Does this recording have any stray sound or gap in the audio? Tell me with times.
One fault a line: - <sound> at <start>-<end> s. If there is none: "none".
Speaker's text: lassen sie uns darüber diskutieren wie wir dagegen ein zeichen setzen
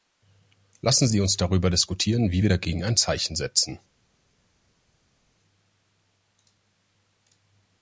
none